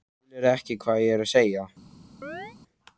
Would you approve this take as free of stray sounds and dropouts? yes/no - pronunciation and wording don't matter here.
no